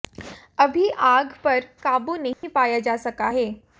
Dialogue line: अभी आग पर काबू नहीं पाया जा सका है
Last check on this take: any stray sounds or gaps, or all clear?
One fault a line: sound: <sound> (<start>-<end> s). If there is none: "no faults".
sound: dropout (2.3-2.4 s)